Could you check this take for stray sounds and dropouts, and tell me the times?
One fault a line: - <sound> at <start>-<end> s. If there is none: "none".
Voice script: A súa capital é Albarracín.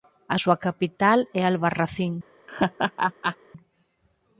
- laugh at 2.5-3.4 s